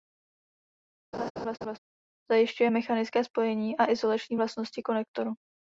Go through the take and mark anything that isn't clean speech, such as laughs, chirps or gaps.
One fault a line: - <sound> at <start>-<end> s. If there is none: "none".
- laugh at 1.1-1.8 s